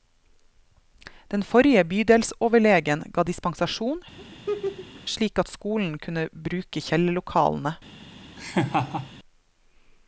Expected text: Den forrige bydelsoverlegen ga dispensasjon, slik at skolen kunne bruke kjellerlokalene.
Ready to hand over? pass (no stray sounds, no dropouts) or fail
fail